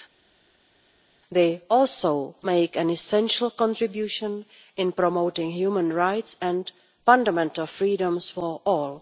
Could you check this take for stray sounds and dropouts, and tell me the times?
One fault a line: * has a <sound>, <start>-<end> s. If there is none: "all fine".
all fine